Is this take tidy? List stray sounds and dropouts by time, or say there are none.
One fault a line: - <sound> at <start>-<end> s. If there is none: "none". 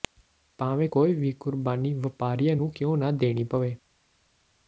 none